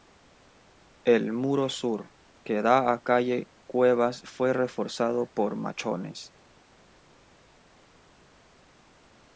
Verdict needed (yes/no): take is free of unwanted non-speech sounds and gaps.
yes